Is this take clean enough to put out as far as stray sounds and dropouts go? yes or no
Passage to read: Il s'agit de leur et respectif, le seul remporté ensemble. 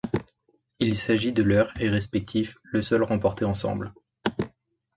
yes